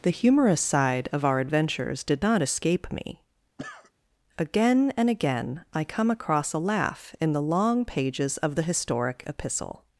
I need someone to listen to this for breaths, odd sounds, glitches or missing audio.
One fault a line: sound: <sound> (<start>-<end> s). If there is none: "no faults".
sound: cough (3.6-3.9 s)